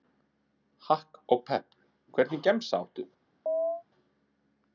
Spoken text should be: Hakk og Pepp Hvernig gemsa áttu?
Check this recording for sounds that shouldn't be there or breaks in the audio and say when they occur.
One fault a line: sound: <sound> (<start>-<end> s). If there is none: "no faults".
sound: chirp (3.5-3.8 s)